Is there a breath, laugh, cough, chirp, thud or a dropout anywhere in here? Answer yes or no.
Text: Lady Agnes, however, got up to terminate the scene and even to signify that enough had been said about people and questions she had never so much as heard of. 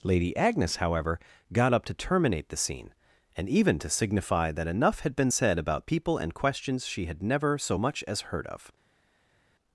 no